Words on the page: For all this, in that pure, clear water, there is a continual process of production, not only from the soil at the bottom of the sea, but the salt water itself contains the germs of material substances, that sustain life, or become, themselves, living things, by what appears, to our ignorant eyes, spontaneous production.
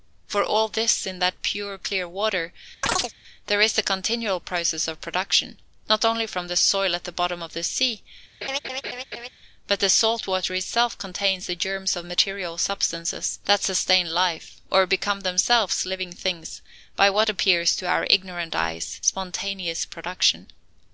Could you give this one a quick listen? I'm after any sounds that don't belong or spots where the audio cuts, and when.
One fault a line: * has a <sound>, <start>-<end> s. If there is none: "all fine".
* has a chirp, 2.8-3.1 s
* has a laugh, 8.4-9.3 s